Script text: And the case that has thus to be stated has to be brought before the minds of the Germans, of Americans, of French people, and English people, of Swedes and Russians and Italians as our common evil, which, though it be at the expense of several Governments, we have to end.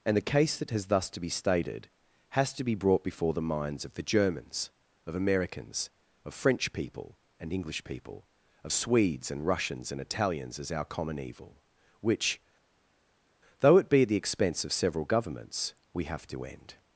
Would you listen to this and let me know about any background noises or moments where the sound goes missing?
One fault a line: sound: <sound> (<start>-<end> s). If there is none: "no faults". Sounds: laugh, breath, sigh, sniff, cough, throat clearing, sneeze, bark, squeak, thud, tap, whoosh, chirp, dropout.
no faults